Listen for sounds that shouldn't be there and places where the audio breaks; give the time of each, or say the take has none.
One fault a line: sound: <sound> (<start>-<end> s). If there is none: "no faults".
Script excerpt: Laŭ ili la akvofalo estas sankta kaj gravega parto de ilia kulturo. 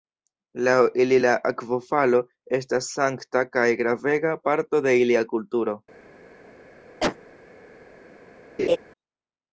sound: cough (7.0-7.2 s)
sound: laugh (8.6-8.8 s)